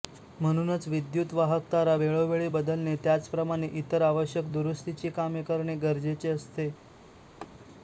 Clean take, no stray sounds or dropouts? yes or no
no